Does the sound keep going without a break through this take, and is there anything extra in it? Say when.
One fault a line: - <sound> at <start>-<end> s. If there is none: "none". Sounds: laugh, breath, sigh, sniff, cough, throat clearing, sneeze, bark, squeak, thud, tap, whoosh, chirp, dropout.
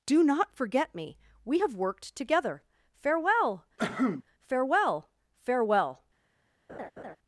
- cough at 3.8-4.2 s
- laugh at 6.7-7.2 s